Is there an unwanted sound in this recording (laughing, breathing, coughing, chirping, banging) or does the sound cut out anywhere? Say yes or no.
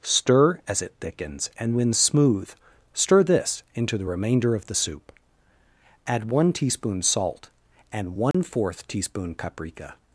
yes